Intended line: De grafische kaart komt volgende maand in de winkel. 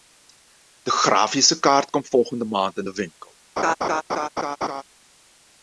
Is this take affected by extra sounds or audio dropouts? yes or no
yes